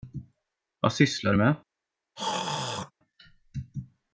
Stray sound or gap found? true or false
true